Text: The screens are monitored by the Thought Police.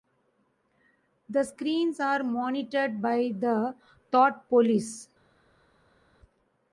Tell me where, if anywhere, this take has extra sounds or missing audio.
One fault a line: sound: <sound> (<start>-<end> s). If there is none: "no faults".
no faults